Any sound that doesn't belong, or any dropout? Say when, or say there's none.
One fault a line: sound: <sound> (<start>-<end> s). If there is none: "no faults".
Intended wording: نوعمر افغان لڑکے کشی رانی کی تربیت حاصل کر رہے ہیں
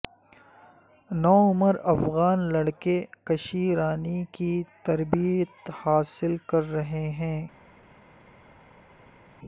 no faults